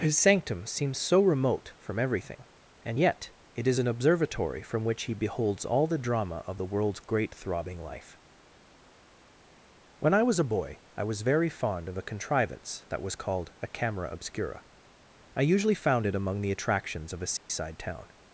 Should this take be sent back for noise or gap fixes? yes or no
yes